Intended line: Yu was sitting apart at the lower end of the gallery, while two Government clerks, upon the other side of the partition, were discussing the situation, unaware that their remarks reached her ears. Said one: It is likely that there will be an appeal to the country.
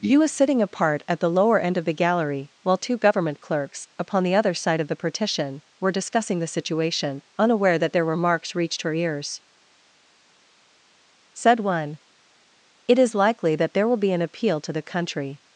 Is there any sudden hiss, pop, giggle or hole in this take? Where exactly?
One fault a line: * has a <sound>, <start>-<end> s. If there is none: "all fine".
all fine